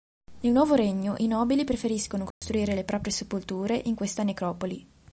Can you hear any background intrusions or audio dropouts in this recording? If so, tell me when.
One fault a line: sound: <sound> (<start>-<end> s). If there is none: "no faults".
sound: dropout (2.3-2.4 s)